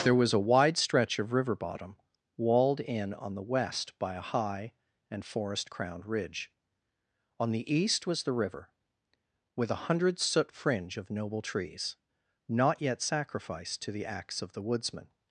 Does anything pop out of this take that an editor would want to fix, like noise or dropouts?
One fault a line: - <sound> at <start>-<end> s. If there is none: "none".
none